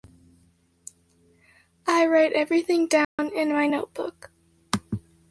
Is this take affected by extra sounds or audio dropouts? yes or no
yes